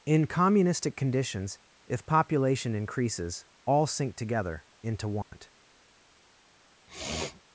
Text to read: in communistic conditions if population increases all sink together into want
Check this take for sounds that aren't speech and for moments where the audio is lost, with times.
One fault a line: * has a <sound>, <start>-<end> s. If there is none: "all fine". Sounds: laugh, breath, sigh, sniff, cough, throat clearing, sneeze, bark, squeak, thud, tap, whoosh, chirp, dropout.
* has a dropout, 5.2-5.3 s
* has a sniff, 6.9-7.4 s